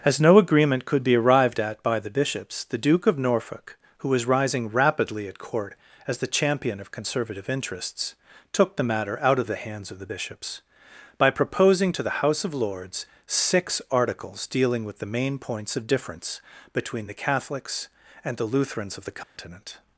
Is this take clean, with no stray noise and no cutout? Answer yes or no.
no